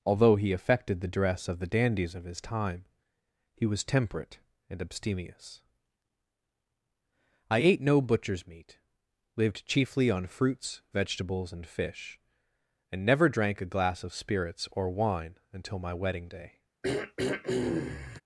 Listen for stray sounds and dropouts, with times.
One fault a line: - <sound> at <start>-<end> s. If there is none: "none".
- throat clearing at 16.8-18.2 s